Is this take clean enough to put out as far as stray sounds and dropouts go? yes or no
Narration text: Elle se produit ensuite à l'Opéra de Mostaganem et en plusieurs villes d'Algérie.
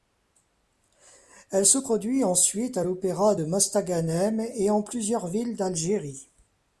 yes